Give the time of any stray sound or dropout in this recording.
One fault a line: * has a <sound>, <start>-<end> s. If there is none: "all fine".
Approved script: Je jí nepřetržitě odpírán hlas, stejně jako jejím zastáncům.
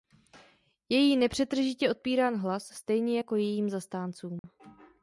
* has a dropout, 4.4-4.4 s